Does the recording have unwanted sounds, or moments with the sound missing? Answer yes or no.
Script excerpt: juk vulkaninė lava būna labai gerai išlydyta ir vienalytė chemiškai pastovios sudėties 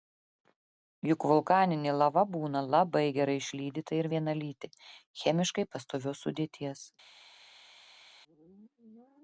no